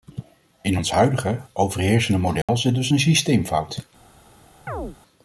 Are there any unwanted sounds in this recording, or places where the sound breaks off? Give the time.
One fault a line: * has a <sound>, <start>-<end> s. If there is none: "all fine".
* has a dropout, 2.4-2.5 s
* has a chirp, 4.7-5.0 s